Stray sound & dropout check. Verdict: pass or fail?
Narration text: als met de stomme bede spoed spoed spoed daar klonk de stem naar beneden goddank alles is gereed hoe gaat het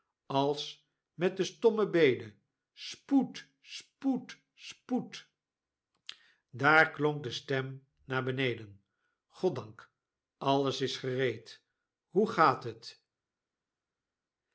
pass